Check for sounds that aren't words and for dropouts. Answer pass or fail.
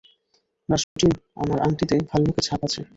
fail